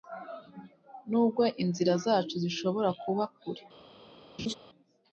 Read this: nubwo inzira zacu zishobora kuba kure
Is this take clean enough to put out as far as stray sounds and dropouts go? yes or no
no